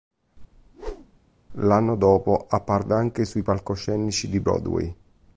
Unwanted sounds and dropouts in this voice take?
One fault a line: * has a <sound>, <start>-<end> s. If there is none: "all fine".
* has a whoosh, 0.5-1.2 s